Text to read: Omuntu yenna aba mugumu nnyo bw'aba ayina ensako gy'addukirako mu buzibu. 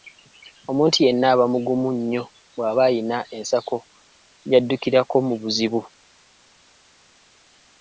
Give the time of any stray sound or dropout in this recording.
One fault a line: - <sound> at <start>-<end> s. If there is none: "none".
none